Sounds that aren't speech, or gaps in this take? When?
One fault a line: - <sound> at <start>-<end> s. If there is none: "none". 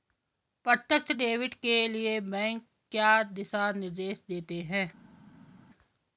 none